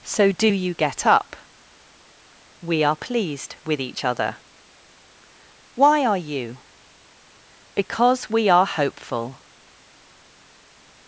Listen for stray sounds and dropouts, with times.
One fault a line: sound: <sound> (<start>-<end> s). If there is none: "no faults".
no faults